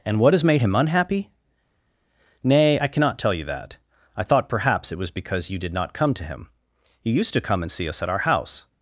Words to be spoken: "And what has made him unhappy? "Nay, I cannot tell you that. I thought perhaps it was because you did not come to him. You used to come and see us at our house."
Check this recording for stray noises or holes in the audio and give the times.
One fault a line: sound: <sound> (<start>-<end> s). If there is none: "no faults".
no faults